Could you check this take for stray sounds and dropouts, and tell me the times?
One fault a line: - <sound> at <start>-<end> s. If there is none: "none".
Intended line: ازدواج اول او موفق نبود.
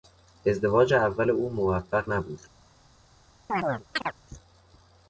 - chirp at 3.5-4.1 s